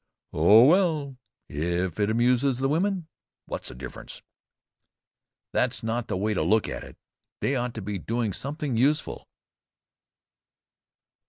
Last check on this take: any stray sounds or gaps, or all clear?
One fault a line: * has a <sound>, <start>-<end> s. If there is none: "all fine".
all fine